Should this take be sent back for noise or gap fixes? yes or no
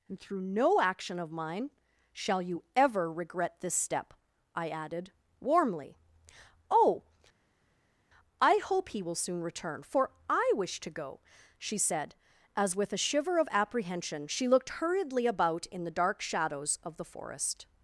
no